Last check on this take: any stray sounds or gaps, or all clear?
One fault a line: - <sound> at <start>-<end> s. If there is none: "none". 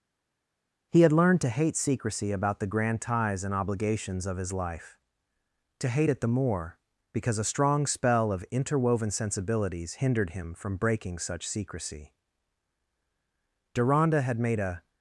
none